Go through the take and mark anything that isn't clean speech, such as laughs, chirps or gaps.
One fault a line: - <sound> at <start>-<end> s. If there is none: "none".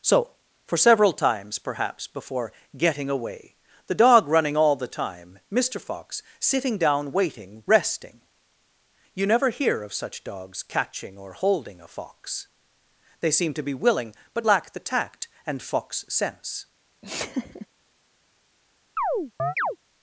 - laugh at 17.0-17.7 s
- chirp at 19.0-19.8 s